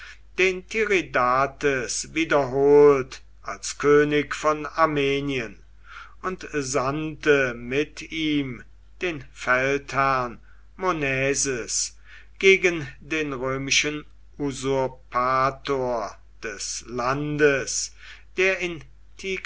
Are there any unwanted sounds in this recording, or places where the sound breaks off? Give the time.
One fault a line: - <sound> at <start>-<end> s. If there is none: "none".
none